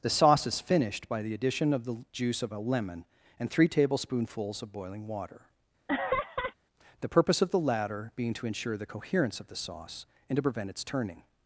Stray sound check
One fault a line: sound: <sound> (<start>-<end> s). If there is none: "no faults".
sound: laugh (5.9-6.5 s)